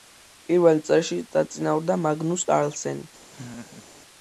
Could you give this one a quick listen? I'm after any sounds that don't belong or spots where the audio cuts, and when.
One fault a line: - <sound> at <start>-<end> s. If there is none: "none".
- laugh at 3.3-3.9 s